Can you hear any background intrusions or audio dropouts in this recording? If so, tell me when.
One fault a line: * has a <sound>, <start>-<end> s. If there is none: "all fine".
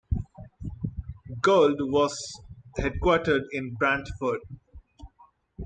all fine